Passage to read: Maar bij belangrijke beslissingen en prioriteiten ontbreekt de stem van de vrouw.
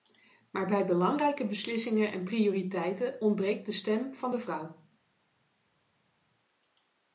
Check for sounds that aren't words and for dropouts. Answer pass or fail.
pass